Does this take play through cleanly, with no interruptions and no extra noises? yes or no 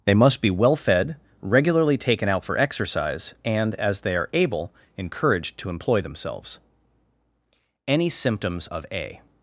yes